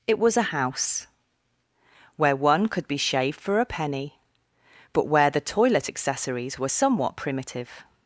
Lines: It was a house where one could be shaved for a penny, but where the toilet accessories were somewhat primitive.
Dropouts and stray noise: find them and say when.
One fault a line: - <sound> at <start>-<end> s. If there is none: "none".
none